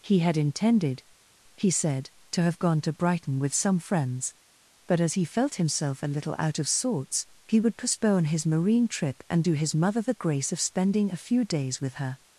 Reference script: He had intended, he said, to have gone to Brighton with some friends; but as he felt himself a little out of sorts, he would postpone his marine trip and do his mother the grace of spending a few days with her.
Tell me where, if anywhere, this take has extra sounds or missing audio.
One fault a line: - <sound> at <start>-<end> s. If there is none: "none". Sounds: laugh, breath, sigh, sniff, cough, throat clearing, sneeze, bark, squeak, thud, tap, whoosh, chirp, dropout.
none